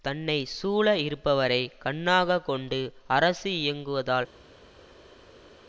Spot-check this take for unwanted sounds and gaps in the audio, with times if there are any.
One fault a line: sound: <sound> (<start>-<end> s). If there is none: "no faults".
no faults